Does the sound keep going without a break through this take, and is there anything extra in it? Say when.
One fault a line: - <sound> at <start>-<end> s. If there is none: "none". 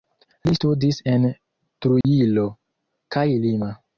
- dropout at 2.0-2.0 s